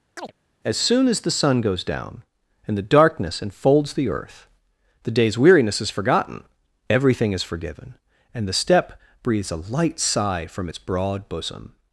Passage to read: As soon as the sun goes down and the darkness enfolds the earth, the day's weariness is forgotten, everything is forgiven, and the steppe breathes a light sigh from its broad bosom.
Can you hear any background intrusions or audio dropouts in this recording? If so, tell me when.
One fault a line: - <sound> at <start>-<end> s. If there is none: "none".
- chirp at 0.2-0.3 s